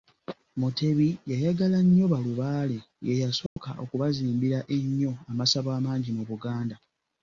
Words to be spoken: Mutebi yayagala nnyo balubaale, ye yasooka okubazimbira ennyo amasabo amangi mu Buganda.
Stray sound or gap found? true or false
true